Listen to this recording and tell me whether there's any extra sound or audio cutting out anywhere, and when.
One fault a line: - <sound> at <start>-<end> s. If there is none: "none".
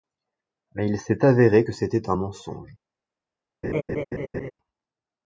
- laugh at 3.6-4.5 s